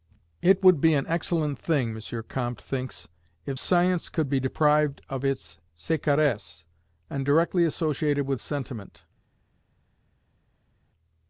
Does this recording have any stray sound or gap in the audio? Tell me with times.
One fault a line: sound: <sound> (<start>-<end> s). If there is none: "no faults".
no faults